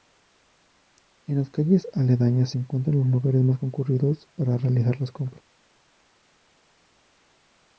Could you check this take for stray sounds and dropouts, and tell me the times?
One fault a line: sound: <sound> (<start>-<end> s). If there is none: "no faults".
no faults